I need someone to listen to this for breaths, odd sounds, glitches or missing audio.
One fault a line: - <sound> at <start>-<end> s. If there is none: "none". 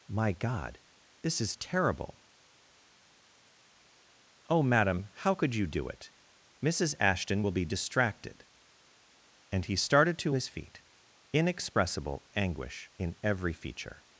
none